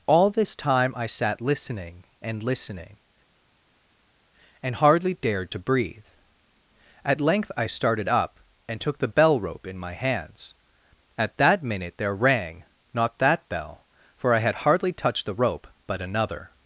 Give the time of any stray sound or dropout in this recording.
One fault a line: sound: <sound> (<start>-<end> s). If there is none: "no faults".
no faults